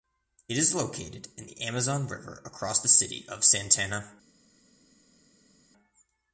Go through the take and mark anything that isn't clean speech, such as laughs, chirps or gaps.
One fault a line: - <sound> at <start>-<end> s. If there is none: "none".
none